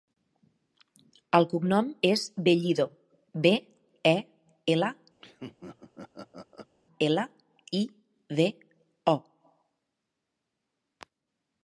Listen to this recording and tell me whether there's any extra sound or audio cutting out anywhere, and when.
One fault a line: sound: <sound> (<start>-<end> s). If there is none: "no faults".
sound: laugh (5.2-6.7 s)